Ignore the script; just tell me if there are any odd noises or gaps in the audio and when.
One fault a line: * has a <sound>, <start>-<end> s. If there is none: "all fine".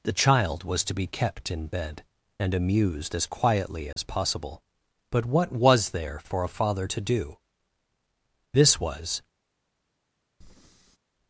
* has a dropout, 3.9-4.0 s
* has a breath, 10.4-11.0 s